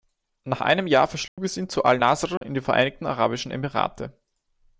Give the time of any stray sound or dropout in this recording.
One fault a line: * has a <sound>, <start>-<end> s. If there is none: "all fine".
* has a dropout, 1.3-1.4 s
* has a dropout, 2.4-2.4 s